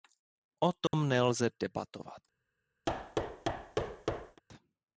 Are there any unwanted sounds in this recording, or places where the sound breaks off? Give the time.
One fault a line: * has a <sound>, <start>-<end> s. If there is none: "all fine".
* has a dropout, 0.9-0.9 s
* has a thud, 2.9-4.4 s